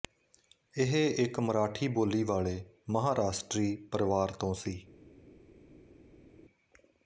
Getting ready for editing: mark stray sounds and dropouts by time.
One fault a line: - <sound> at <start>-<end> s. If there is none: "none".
none